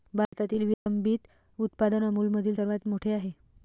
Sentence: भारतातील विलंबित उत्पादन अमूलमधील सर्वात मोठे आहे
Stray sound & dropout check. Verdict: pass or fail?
fail